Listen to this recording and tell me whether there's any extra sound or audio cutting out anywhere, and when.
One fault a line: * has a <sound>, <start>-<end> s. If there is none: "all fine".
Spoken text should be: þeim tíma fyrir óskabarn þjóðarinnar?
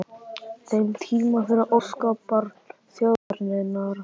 * has a dropout, 3.2-3.3 s